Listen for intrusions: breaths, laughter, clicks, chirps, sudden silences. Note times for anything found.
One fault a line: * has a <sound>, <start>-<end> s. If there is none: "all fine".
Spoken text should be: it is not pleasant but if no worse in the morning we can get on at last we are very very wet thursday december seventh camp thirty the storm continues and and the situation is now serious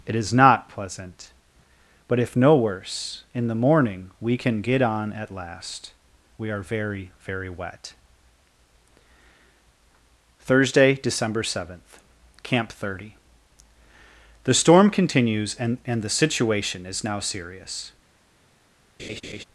* has a laugh, 19.0-19.4 s